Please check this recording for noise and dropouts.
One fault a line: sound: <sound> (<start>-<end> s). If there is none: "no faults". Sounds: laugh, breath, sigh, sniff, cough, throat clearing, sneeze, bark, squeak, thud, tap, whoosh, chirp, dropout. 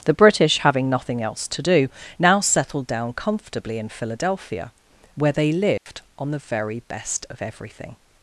sound: dropout (5.8-5.9 s)